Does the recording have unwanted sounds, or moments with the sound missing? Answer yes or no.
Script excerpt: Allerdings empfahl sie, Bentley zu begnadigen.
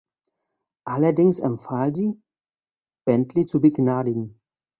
no